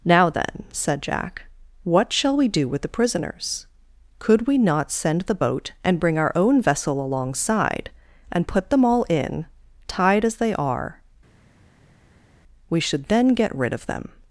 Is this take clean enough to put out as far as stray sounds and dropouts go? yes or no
yes